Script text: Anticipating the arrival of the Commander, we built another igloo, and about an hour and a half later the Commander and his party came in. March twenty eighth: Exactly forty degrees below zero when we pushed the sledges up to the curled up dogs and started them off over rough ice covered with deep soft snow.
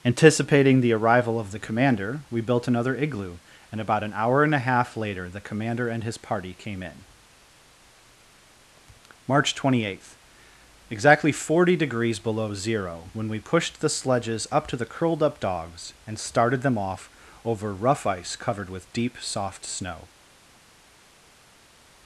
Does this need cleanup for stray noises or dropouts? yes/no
no